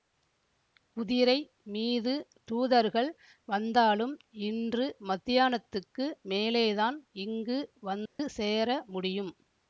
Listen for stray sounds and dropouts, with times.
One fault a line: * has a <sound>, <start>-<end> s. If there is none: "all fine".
* has a dropout, 8.1-8.2 s